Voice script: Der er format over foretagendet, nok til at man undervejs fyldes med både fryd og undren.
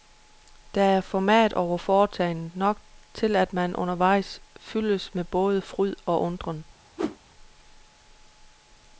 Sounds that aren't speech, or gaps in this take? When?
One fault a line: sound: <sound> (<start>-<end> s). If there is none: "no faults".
sound: whoosh (7.0-7.2 s)